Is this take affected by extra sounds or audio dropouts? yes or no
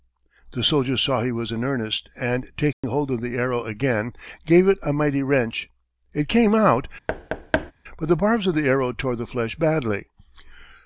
yes